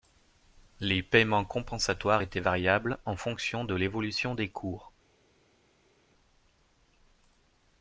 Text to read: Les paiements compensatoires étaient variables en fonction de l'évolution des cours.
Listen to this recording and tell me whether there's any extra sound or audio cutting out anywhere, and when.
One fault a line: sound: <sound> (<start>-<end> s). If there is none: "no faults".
no faults